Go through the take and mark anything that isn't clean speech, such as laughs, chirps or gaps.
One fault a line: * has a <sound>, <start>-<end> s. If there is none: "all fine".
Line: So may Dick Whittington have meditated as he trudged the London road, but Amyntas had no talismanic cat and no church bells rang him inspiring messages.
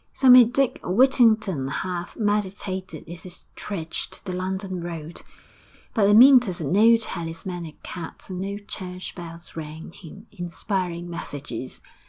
all fine